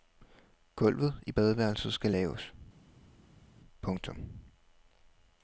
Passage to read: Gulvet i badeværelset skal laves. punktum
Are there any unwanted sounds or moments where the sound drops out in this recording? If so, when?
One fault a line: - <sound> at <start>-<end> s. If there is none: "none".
none